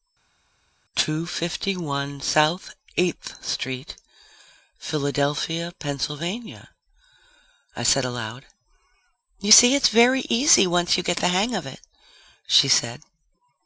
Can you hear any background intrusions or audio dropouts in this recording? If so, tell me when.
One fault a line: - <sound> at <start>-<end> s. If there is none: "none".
none